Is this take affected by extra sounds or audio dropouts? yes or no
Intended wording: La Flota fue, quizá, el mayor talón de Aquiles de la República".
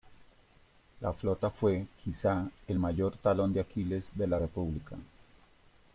no